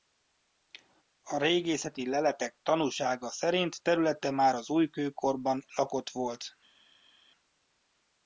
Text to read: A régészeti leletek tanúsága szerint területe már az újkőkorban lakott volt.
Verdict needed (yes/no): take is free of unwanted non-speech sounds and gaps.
yes